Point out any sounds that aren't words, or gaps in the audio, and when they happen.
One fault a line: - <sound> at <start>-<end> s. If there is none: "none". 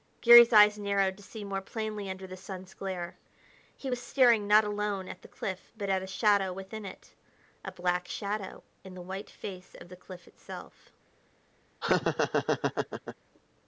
- laugh at 11.8-13.2 s